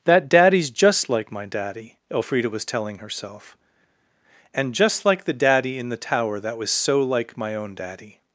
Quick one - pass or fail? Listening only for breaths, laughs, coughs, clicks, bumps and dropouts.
pass